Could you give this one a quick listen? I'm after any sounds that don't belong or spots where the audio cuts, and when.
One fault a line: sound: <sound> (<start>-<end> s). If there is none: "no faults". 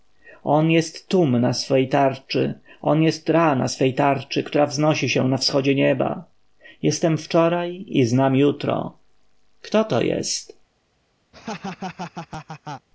sound: laugh (11.3-12.9 s)